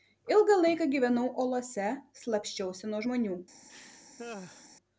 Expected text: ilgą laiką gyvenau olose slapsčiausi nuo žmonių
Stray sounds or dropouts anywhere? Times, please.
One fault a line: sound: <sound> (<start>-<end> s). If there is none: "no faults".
sound: laugh (3.7-4.7 s)